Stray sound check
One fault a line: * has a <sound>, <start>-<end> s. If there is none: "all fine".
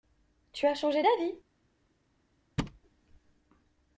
* has a thud, 2.6-2.8 s